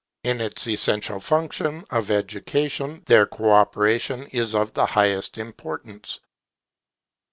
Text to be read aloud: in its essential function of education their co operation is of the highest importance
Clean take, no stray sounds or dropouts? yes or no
yes